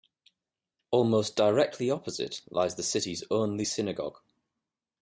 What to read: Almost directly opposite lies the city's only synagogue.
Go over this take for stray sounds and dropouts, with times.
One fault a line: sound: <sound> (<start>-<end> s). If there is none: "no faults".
no faults